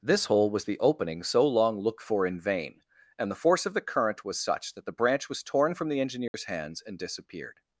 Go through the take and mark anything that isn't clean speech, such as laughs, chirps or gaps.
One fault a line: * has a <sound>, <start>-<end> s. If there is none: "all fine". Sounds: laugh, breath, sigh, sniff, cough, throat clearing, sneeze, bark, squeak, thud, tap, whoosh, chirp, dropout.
* has a dropout, 6.3-6.3 s